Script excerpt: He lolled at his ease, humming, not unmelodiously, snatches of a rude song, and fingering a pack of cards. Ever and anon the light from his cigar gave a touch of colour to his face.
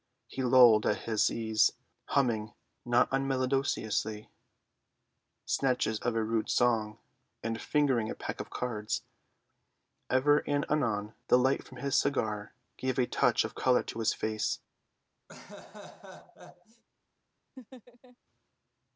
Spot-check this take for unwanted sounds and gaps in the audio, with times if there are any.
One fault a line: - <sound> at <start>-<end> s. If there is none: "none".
- laugh at 15.3-16.8 s
- laugh at 17.6-18.2 s